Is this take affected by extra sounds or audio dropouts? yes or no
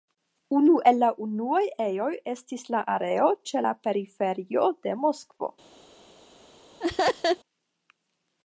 yes